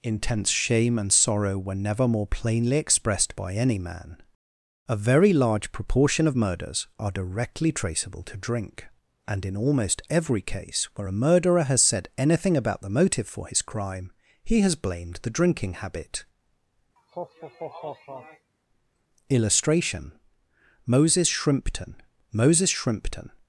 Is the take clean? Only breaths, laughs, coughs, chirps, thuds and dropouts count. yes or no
no